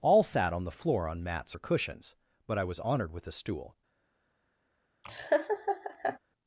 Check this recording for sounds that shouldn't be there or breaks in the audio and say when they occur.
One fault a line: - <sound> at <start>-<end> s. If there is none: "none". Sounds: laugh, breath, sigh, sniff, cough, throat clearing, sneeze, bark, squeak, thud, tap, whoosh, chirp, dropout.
- laugh at 5.0-6.2 s